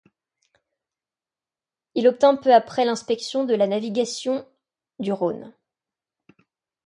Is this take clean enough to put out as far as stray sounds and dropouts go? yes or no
yes